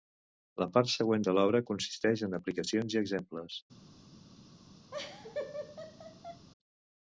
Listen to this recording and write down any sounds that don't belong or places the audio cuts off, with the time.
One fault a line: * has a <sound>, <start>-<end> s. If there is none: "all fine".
* has a laugh, 4.9-6.5 s